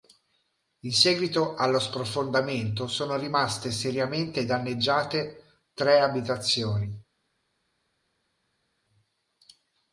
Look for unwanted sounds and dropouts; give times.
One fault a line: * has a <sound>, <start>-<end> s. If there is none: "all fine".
all fine